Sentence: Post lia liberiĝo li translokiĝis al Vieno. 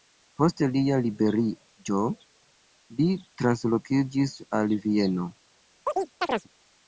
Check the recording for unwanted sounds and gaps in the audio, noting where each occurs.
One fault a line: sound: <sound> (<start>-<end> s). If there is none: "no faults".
sound: chirp (5.9-6.5 s)